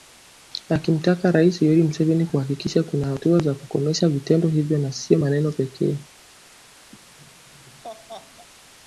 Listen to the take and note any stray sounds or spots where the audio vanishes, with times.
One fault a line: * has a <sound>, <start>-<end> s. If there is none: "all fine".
* has a laugh, 6.9-8.5 s